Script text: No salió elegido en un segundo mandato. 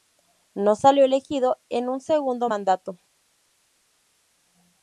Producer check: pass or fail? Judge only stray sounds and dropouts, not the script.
pass